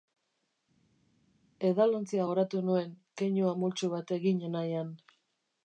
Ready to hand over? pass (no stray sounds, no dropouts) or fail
pass